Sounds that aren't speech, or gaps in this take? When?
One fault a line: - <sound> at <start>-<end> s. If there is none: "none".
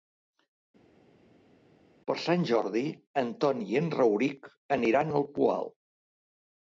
none